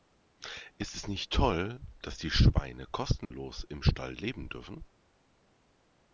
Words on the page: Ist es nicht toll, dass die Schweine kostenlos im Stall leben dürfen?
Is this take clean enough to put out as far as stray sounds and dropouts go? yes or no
no